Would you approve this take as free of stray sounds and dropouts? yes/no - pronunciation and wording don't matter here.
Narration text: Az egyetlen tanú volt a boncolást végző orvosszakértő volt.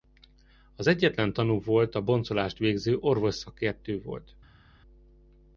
yes